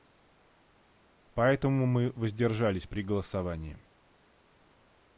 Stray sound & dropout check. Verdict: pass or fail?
pass